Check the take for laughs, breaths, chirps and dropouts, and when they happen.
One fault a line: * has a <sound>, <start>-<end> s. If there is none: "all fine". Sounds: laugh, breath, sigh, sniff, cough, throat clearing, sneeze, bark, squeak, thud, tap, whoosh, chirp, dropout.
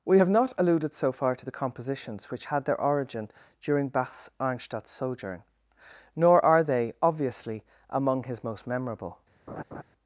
* has a laugh, 9.5-9.8 s